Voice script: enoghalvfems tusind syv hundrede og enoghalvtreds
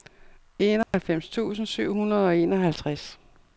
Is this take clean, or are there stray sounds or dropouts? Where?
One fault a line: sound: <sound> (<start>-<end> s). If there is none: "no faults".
sound: dropout (0.8-0.9 s)